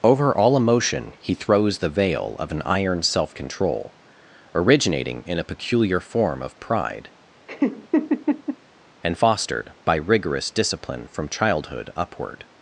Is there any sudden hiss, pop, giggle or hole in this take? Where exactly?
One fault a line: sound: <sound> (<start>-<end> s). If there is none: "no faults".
sound: laugh (7.5-8.6 s)